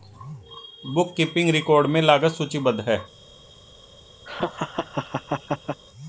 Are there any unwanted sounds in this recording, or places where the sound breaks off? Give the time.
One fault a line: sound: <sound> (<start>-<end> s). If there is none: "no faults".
sound: laugh (4.3-5.8 s)